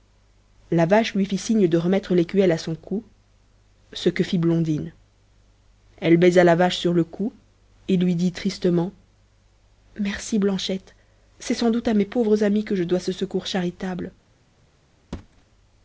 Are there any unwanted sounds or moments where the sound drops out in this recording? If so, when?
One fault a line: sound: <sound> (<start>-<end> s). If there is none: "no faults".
sound: thud (15.1-15.4 s)